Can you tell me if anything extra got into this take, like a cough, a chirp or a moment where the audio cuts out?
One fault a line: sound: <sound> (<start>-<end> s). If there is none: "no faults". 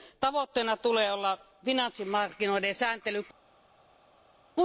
no faults